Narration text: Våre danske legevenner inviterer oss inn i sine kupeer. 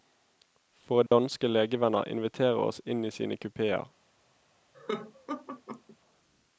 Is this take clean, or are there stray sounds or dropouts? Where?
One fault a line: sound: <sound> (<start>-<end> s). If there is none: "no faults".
sound: dropout (1.1-1.1 s)
sound: laugh (4.7-6.0 s)